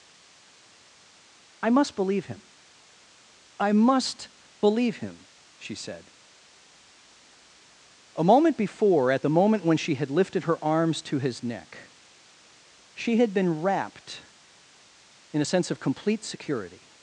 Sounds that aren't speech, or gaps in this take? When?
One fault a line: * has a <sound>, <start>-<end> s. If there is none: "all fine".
all fine